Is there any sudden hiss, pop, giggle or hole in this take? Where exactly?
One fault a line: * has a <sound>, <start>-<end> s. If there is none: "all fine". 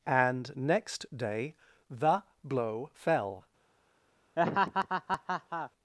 * has a laugh, 4.4-5.7 s